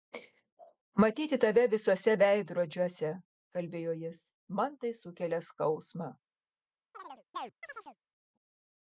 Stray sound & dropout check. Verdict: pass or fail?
fail